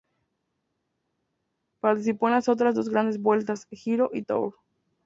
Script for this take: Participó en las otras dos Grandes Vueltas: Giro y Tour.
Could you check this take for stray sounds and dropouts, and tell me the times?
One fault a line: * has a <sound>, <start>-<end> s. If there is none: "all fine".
all fine